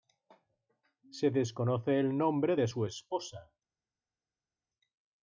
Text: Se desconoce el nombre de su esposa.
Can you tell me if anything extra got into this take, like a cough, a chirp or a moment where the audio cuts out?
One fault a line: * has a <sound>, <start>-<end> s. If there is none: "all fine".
all fine